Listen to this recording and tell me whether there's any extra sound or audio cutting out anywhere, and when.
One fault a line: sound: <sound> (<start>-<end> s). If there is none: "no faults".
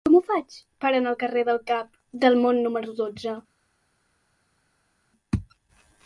no faults